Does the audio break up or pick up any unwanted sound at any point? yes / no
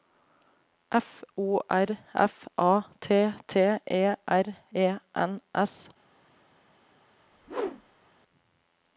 yes